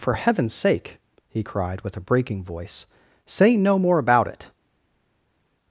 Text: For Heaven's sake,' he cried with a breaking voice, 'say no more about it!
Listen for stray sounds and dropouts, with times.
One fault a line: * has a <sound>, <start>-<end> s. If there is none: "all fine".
all fine